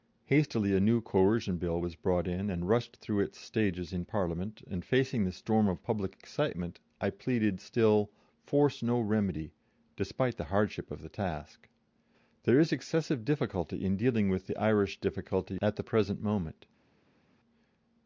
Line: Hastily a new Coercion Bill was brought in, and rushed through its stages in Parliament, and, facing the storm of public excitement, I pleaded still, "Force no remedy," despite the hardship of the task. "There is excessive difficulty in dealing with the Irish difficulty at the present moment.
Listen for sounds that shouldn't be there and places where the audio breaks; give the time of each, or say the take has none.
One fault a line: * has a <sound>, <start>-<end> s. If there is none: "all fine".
all fine